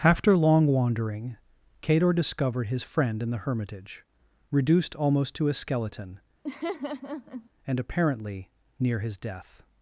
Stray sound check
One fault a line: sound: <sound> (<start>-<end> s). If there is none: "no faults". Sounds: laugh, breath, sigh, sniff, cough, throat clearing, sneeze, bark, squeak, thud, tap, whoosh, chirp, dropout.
sound: laugh (6.4-7.5 s)